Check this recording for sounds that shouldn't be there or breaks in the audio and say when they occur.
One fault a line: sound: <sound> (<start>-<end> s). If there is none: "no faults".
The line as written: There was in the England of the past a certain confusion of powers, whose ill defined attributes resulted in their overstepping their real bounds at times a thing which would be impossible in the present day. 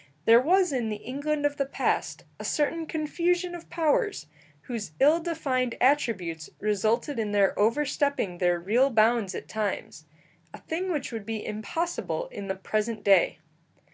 no faults